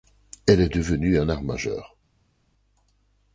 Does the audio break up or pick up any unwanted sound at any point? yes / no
no